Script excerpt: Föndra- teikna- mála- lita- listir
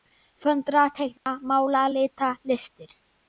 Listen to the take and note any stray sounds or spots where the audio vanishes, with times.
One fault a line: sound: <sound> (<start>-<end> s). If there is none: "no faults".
sound: dropout (1.2-1.3 s)